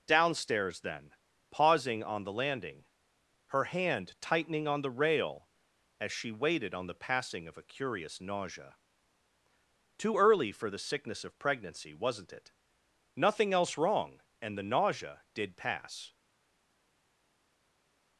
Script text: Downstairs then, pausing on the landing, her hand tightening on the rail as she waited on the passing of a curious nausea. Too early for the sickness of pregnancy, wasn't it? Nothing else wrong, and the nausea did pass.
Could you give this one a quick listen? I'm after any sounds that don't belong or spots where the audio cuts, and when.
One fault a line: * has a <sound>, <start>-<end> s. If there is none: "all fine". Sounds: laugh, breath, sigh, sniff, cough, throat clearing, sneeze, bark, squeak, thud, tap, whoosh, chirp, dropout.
all fine